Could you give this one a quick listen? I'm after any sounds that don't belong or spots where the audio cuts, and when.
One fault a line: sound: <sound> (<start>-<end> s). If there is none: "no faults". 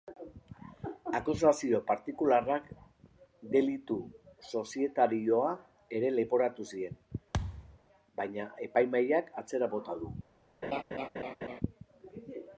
sound: thud (7.3-7.8 s)
sound: laugh (10.6-11.6 s)